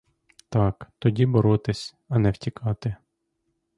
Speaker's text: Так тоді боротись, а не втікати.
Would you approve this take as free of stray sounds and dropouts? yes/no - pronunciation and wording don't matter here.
yes